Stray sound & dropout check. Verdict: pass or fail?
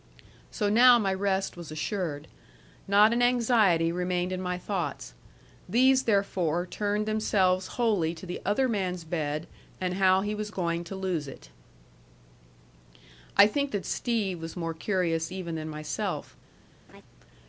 fail